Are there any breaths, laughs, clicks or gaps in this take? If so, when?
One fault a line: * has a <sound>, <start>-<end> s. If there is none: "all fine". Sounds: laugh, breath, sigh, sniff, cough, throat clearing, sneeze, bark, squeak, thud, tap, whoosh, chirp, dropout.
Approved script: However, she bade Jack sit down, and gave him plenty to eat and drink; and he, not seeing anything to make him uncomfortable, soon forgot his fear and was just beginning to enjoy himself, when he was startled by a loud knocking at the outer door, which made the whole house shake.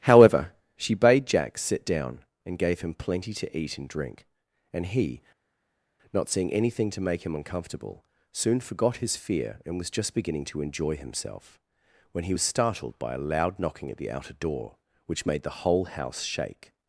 all fine